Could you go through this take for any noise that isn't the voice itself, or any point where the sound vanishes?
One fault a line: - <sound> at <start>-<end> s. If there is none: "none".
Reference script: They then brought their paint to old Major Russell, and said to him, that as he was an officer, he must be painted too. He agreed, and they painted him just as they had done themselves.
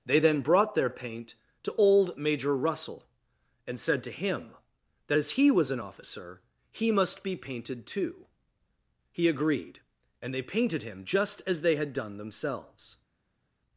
none